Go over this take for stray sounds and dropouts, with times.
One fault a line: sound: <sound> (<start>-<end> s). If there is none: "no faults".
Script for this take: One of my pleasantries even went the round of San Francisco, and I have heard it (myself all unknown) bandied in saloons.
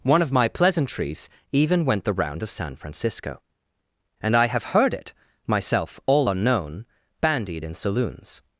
no faults